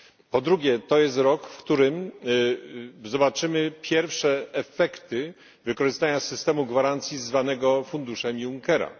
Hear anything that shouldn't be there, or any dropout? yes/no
no